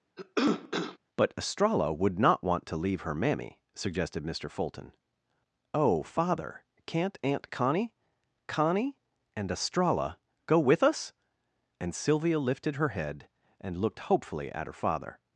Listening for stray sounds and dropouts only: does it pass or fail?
fail